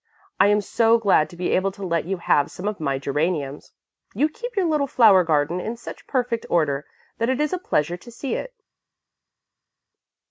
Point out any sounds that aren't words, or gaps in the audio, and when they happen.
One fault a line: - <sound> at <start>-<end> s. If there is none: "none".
none